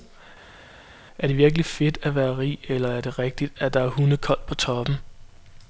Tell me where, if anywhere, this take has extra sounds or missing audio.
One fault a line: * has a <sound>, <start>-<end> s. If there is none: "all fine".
all fine